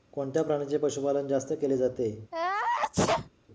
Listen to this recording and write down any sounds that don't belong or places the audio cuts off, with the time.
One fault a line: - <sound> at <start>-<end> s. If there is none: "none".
- sneeze at 2.3-3.3 s